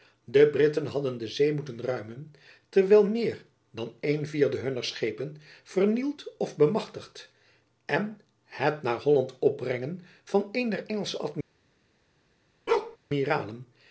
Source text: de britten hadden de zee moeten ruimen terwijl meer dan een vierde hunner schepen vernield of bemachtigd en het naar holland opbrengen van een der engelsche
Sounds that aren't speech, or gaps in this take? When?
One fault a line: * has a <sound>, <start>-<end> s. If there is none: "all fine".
* has a bark, 12.7-13.0 s